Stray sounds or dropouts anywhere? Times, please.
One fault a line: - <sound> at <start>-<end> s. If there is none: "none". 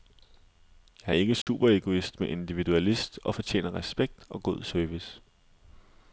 - dropout at 1.4-1.5 s